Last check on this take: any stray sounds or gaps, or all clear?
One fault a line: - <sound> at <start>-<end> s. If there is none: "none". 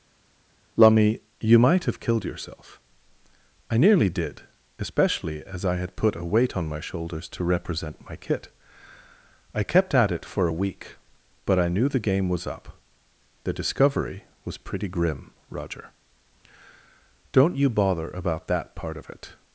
none